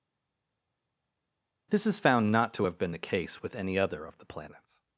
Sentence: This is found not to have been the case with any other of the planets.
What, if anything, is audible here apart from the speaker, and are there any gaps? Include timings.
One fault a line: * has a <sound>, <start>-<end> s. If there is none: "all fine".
all fine